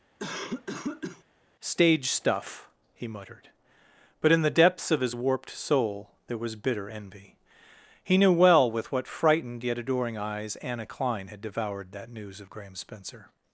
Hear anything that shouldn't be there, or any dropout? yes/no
yes